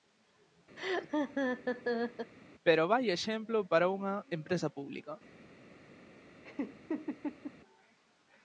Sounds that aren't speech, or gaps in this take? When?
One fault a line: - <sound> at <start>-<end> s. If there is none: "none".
- laugh at 0.8-2.3 s
- laugh at 6.4-7.5 s